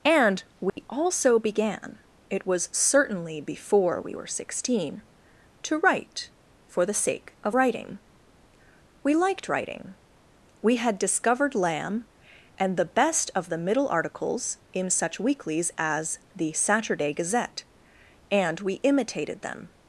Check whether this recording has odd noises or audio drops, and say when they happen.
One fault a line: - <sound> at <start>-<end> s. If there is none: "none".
- dropout at 0.7-0.8 s